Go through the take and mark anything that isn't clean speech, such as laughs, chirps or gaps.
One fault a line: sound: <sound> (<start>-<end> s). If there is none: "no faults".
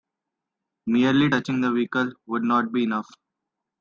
no faults